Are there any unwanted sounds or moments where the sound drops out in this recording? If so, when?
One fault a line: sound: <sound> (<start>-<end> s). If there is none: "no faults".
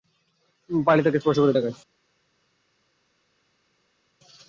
no faults